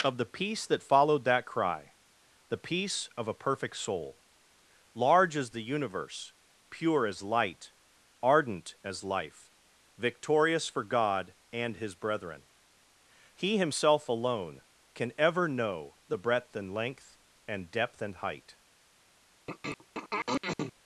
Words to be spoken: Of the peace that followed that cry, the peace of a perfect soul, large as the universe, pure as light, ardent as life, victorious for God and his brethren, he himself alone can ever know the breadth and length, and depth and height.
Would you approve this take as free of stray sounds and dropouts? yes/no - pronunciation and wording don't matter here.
no